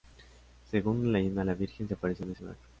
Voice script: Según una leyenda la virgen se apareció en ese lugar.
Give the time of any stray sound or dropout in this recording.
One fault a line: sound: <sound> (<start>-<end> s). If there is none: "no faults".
no faults